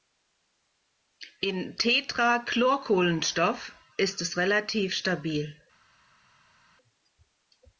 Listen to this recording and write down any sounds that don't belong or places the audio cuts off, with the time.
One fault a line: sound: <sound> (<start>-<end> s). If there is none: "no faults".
no faults